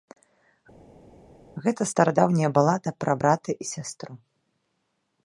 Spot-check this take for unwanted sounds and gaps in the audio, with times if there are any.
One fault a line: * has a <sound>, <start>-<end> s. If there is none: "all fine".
all fine